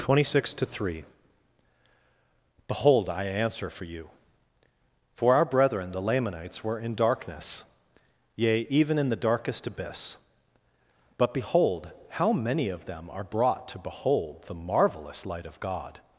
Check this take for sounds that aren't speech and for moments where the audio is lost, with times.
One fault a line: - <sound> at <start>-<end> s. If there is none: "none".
none